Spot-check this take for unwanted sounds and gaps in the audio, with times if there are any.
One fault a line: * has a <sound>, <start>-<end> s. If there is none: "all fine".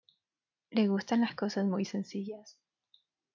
all fine